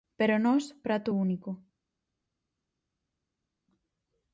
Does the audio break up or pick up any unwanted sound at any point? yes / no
no